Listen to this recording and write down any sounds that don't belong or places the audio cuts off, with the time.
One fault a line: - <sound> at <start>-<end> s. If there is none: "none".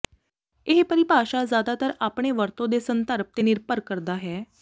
none